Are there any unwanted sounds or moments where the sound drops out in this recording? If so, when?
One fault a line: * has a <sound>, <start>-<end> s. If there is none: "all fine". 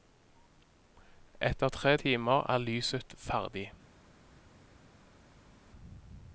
all fine